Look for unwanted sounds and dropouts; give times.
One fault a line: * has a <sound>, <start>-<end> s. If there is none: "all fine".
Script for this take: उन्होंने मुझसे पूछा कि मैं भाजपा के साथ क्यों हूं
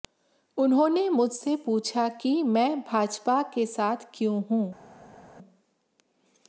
all fine